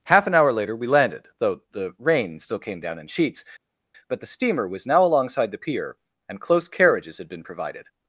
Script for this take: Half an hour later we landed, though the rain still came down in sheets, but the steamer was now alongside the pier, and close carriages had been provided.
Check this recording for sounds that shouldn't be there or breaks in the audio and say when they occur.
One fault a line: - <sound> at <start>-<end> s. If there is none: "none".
none